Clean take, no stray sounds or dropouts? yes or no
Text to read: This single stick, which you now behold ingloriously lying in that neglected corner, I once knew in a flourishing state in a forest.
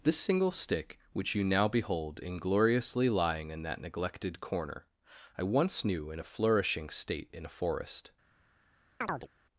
no